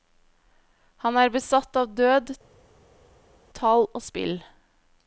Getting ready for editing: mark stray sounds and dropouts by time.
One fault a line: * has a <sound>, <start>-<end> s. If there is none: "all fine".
all fine